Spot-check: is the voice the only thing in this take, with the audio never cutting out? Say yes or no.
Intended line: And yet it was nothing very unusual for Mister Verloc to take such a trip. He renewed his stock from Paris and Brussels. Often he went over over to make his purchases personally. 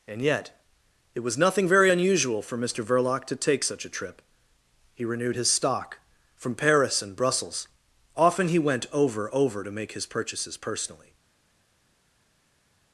yes